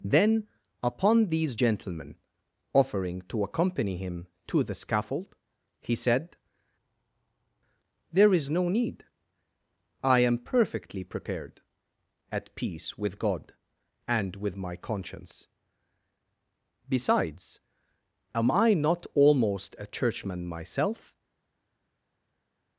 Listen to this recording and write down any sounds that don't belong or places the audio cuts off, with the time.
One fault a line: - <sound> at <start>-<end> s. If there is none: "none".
none